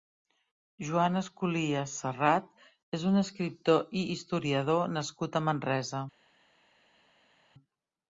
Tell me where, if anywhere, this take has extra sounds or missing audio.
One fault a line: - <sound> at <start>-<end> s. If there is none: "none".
none